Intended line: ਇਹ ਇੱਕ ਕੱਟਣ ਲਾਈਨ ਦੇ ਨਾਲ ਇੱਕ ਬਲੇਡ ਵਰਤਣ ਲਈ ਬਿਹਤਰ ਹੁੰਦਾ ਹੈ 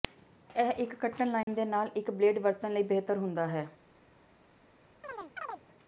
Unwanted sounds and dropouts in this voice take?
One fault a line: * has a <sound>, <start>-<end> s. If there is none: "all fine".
* has a dropout, 1.4-1.5 s
* has a chirp, 5.0-5.6 s